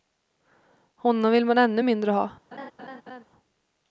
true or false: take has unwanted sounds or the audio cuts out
true